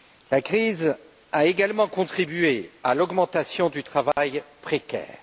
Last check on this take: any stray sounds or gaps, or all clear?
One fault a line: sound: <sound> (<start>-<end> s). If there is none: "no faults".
sound: dropout (4.1-4.2 s)